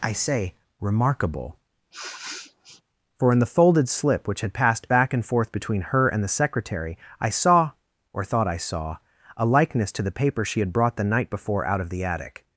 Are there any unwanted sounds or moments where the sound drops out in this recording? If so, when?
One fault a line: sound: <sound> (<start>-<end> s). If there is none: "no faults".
sound: sniff (1.9-2.8 s)